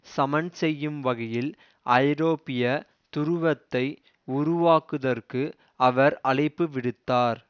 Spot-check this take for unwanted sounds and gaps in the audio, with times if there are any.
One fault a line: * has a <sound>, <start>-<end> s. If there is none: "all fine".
all fine